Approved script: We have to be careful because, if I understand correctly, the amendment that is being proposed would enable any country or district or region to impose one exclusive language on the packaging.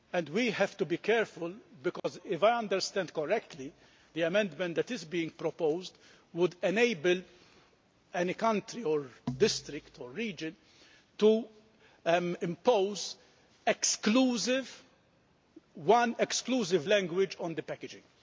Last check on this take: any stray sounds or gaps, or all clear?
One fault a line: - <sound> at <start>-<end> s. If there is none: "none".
- dropout at 2.0-2.0 s